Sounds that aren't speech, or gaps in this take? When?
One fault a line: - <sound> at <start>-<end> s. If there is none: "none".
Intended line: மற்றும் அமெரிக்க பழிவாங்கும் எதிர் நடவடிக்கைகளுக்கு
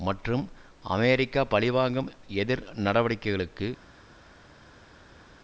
none